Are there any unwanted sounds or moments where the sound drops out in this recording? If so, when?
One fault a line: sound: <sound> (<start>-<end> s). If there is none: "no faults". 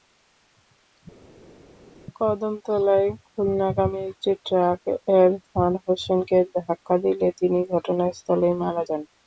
no faults